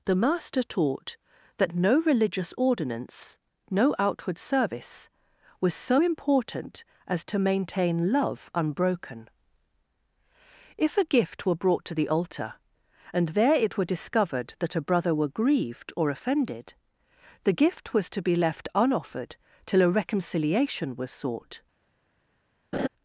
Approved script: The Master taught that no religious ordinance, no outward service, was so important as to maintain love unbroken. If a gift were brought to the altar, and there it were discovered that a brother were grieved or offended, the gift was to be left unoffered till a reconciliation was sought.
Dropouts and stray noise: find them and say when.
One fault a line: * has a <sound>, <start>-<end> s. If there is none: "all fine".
* has a laugh, 22.7-22.9 s